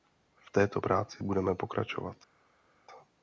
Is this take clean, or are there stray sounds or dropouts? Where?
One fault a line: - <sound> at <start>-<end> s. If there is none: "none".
none